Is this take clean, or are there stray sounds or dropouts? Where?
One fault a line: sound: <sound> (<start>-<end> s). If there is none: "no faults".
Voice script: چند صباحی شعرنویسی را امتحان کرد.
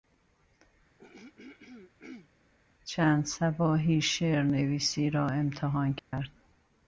sound: throat clearing (1.0-2.3 s)
sound: dropout (6.0-6.1 s)